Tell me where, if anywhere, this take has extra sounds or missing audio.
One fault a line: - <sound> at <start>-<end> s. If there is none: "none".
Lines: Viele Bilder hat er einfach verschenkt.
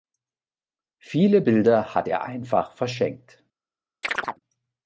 - chirp at 4.0-4.4 s